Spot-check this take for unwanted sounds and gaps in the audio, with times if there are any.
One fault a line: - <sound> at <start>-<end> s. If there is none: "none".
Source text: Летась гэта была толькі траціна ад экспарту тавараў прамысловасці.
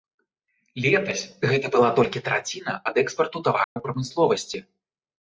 - dropout at 3.6-3.8 s